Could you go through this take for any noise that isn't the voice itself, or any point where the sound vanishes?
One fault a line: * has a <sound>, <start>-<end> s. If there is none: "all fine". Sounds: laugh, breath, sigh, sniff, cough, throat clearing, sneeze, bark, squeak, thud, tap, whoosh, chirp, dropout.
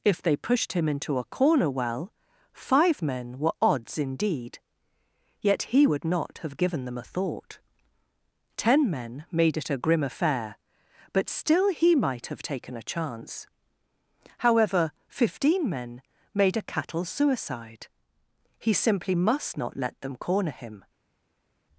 all fine